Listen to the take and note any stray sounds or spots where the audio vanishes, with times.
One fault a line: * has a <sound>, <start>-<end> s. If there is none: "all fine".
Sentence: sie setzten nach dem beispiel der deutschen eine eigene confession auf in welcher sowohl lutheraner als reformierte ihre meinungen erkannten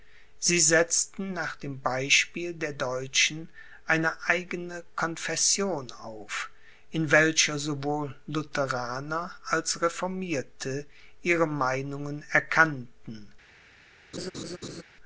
* has a laugh, 14.1-14.8 s